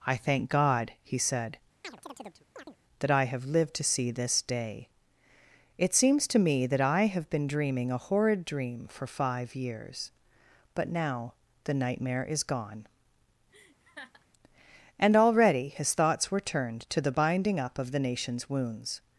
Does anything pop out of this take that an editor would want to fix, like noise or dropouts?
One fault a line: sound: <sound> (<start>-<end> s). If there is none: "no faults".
sound: chirp (1.8-2.8 s)
sound: laugh (13.5-14.3 s)